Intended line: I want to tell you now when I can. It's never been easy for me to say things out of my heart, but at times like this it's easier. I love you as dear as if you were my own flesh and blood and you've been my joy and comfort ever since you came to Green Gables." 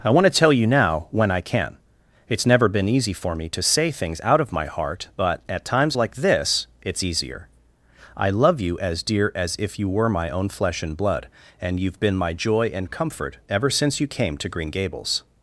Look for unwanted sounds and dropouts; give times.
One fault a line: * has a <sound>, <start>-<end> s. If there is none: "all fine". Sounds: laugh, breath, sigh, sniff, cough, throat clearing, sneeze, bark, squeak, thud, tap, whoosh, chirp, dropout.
all fine